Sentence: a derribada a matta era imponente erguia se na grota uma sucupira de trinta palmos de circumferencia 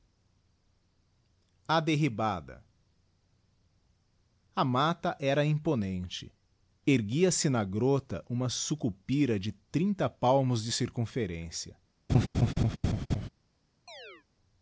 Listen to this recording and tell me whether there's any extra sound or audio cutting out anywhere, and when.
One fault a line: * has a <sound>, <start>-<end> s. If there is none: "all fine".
* has a laugh, 12.1-13.3 s
* has a chirp, 13.9-14.3 s